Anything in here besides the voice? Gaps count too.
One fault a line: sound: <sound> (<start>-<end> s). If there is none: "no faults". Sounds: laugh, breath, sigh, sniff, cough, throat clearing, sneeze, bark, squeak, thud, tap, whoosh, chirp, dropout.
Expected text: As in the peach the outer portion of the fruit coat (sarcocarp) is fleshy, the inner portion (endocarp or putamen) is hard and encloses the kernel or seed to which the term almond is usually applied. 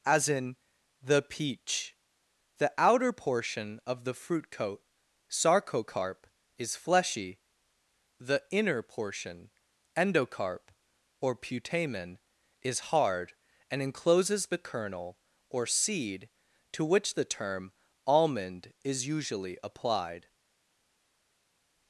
no faults